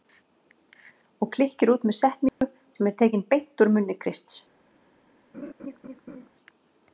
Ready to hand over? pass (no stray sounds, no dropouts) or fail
fail